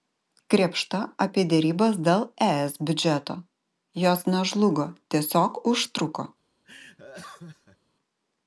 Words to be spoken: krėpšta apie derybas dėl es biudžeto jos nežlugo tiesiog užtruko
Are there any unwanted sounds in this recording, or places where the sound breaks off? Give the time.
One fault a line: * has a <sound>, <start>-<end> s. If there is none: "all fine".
* has a laugh, 6.6-7.8 s